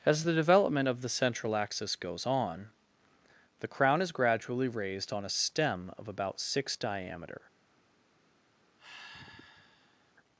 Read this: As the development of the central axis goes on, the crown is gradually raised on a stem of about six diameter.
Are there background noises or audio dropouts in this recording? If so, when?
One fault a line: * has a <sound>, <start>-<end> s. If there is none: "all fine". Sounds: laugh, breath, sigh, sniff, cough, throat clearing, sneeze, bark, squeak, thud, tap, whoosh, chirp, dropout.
* has a sigh, 8.8-10.1 s